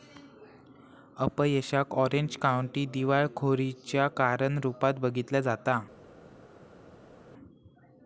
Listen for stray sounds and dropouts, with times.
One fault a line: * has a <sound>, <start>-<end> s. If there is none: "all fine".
all fine